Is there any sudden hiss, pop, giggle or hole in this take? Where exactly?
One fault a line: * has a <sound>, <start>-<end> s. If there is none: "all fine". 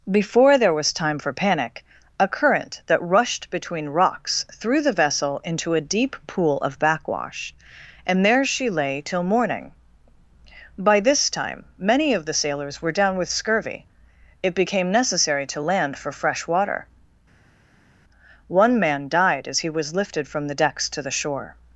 all fine